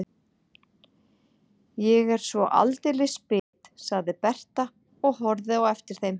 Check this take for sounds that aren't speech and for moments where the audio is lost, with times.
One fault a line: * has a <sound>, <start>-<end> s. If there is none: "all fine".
* has a dropout, 3.4-3.5 s